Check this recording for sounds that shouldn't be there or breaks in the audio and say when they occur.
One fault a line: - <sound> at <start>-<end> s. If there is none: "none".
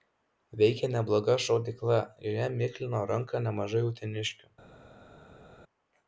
none